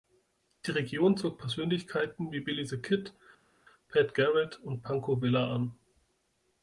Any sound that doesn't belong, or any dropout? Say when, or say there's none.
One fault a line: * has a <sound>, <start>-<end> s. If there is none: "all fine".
all fine